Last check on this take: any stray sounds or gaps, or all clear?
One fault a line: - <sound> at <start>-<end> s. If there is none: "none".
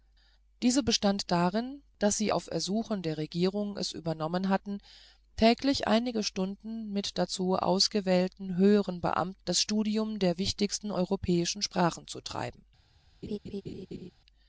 - laugh at 13.2-14.1 s